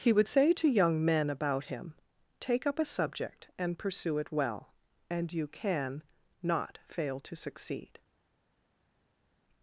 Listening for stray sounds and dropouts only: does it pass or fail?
pass